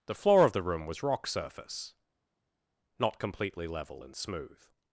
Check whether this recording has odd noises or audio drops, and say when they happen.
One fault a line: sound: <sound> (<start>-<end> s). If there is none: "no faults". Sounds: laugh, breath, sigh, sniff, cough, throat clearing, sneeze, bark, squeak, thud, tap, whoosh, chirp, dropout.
no faults